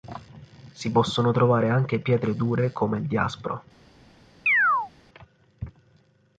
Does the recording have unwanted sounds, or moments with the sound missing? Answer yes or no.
yes